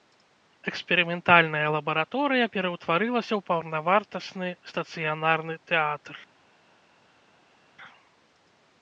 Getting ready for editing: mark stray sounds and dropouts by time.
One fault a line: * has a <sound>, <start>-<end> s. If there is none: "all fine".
all fine